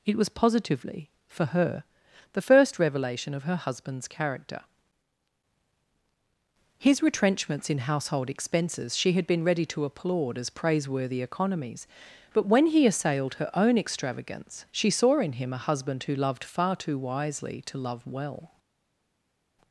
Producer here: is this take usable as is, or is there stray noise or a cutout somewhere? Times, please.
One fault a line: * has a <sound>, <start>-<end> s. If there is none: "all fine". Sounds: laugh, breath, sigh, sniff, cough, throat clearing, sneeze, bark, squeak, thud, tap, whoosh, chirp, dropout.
all fine